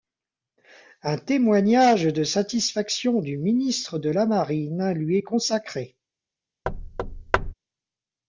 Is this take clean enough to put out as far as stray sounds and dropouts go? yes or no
no